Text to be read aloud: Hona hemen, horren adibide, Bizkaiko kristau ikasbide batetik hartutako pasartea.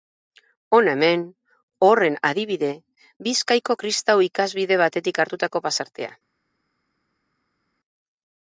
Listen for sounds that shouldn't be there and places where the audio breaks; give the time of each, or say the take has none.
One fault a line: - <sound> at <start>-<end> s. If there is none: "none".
none